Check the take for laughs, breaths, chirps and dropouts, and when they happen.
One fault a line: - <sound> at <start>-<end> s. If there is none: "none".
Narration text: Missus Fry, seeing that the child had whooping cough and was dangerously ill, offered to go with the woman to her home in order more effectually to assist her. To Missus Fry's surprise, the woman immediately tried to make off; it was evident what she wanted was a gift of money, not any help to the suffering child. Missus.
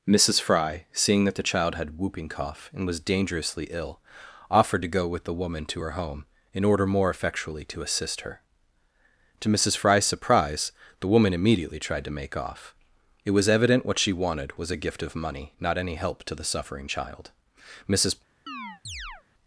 - chirp at 18.5-19.2 s